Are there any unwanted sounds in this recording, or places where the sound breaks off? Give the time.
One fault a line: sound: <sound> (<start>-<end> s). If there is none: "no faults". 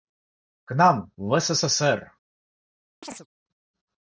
sound: chirp (3.0-3.3 s)